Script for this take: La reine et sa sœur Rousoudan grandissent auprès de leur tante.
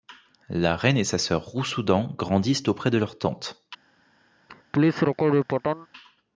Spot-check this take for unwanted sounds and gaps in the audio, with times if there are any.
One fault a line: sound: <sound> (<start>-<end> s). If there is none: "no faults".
sound: laugh (4.5-5.9 s)